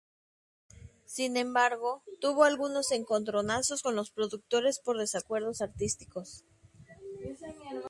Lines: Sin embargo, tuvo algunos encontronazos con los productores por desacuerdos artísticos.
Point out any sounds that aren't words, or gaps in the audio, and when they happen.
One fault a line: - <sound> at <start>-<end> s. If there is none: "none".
none